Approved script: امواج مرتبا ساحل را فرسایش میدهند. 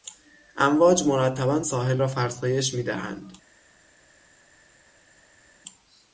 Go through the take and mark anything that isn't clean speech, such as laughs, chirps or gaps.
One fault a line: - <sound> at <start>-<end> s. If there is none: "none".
none